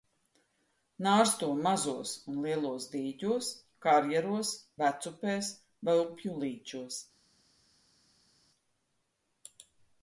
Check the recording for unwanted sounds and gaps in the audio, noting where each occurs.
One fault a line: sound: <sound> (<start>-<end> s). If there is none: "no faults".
no faults